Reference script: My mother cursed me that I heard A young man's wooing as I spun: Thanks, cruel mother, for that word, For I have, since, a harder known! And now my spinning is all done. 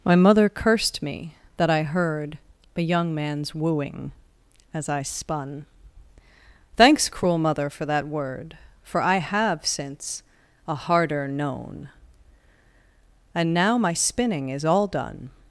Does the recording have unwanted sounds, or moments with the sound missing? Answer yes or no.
no